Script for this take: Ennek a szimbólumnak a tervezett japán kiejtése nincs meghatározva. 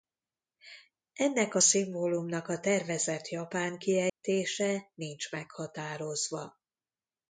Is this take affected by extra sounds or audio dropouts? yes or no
yes